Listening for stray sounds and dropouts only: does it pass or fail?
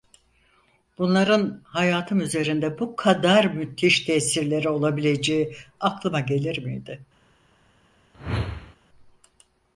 fail